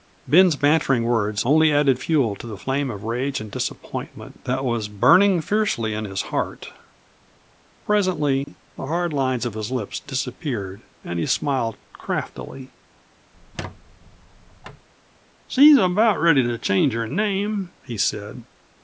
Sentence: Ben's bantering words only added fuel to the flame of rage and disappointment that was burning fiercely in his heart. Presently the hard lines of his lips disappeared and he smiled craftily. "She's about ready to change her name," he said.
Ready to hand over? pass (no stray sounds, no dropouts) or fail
fail